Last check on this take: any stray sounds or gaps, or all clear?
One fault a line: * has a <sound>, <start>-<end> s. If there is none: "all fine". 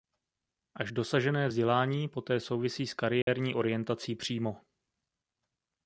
* has a dropout, 3.2-3.3 s